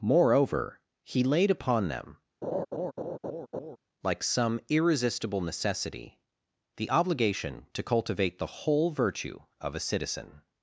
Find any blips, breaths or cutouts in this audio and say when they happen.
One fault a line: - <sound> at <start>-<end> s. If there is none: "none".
- laugh at 2.4-3.8 s